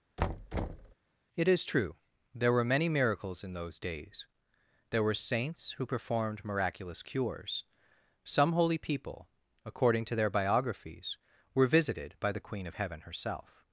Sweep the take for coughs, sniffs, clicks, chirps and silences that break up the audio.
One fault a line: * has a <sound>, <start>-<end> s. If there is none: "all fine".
* has a thud, 0.2-0.9 s